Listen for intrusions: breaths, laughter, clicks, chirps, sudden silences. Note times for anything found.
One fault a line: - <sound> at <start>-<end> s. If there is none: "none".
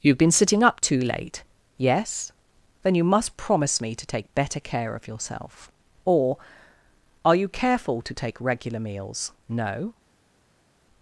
none